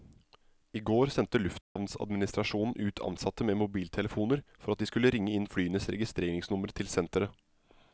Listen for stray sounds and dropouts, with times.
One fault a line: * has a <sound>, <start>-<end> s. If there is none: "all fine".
* has a dropout, 1.6-1.8 s